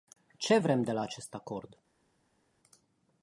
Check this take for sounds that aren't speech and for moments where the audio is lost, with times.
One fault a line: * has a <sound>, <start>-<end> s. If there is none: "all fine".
all fine